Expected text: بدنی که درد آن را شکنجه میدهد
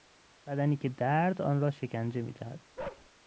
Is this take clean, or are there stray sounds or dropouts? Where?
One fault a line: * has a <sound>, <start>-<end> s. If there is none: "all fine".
* has a bark, 2.8-3.1 s